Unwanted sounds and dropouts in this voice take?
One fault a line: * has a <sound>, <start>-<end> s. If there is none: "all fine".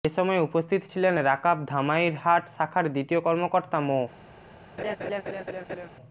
* has a laugh, 4.8-5.9 s